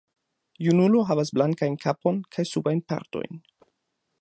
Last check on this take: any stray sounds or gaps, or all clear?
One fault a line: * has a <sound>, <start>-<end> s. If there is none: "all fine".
all fine